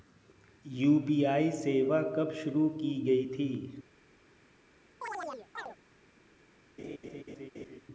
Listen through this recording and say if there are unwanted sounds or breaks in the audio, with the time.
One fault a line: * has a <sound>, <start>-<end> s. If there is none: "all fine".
* has a chirp, 5.0-5.8 s
* has a laugh, 6.8-7.8 s